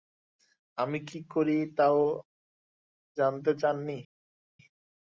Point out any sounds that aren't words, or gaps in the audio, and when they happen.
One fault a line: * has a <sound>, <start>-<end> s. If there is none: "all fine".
all fine